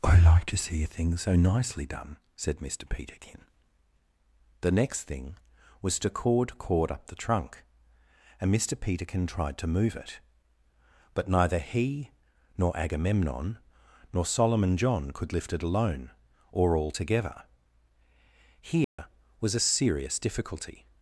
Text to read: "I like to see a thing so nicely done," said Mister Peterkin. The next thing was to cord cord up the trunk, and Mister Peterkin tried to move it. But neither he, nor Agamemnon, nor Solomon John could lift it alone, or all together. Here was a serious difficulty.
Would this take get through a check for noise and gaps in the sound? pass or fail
fail